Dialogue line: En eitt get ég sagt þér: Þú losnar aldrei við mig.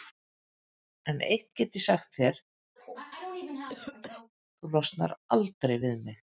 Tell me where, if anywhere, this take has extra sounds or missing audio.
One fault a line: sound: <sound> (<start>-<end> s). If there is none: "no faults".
sound: cough (2.8-4.3 s)